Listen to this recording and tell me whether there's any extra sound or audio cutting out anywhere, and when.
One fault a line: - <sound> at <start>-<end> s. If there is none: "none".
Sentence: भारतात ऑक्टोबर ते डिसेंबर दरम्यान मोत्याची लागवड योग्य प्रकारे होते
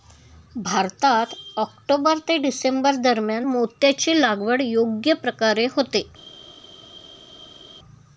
none